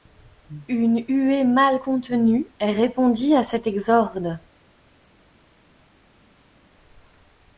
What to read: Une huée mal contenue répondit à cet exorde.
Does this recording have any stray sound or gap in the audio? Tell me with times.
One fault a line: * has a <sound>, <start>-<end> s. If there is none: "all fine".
all fine